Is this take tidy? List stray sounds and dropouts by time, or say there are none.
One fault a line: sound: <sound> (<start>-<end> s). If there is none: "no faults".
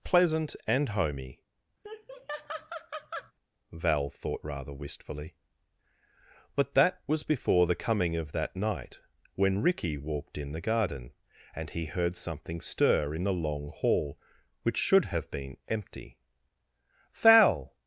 sound: laugh (1.8-3.3 s)